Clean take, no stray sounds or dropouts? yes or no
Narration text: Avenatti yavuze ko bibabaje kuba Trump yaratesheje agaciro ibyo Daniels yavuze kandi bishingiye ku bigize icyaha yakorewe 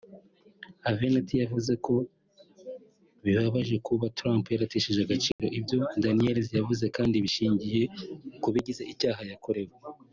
no